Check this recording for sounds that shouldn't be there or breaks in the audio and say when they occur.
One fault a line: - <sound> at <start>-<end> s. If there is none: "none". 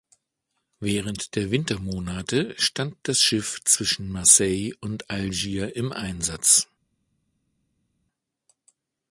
none